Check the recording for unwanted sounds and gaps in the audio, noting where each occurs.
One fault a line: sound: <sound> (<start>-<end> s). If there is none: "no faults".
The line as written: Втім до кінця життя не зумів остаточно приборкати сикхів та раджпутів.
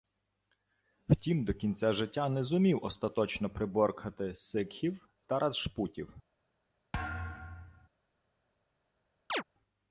sound: thud (6.9-7.9 s)
sound: chirp (9.3-9.4 s)